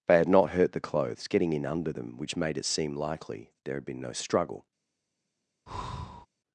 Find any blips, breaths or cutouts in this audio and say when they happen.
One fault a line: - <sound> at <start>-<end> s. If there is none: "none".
- breath at 5.7-6.3 s